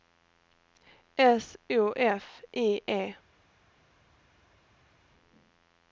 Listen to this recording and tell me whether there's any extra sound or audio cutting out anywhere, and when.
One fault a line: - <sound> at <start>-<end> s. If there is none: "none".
none